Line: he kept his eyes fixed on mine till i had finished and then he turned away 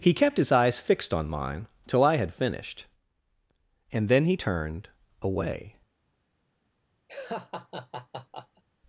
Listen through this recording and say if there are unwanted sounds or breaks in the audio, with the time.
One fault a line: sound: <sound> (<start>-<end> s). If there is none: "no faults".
sound: laugh (7.1-8.6 s)